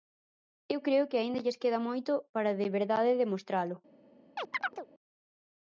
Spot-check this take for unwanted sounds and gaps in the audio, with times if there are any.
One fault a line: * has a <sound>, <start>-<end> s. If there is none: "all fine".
* has a chirp, 4.4-4.9 s